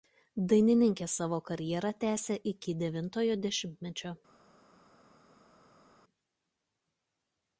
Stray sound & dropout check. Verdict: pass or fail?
pass